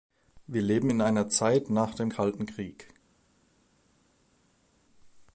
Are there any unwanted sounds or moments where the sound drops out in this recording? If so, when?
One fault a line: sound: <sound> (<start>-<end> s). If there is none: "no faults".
no faults